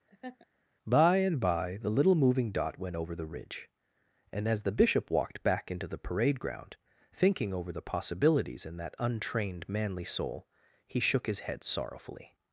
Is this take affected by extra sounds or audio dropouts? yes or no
yes